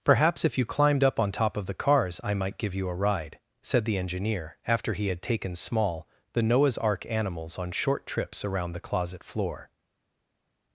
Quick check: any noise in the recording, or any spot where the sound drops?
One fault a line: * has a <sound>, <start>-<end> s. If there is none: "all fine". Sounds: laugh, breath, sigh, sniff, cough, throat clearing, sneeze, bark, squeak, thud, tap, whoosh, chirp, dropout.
all fine